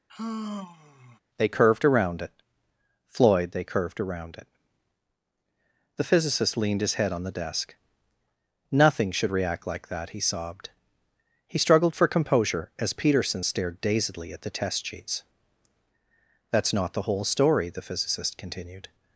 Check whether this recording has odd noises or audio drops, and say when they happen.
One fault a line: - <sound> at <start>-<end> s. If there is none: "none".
- sigh at 0.1-1.2 s